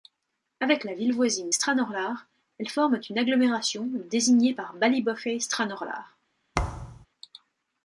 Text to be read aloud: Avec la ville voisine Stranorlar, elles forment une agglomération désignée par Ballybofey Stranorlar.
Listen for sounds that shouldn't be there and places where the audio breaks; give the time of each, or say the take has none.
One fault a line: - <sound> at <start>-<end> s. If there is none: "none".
- thud at 6.5-7.1 s